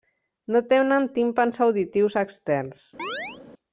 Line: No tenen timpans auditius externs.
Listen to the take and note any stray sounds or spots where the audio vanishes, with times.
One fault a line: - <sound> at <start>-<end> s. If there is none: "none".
- chirp at 3.0-3.4 s